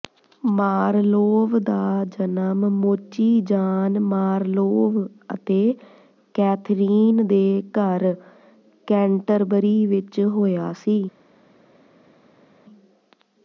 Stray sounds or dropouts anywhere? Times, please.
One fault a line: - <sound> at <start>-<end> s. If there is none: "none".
none